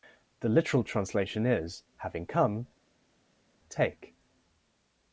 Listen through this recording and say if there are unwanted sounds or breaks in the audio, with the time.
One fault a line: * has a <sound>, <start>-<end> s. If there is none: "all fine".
all fine